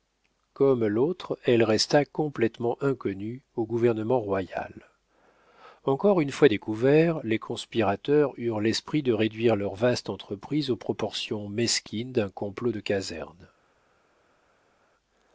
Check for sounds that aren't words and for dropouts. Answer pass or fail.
pass